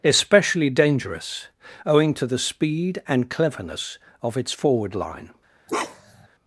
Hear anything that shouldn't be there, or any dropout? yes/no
yes